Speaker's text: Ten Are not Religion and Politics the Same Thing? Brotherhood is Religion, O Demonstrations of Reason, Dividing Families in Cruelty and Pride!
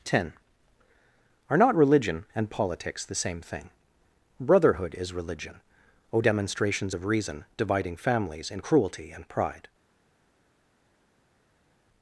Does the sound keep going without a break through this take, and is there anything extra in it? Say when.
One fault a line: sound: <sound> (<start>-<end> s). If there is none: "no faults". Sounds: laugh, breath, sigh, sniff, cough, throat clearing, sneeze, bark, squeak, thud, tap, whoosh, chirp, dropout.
no faults